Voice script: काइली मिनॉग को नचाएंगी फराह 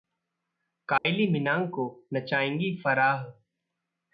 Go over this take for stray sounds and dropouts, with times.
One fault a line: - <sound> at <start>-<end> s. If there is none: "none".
- dropout at 1.0-1.1 s